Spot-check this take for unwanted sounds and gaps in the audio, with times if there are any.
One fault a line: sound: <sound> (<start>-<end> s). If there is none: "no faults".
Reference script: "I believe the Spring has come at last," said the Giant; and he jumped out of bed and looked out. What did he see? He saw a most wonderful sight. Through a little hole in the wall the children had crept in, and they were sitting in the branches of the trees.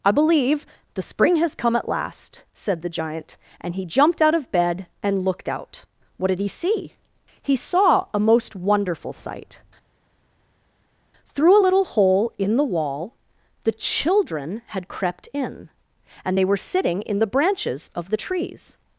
no faults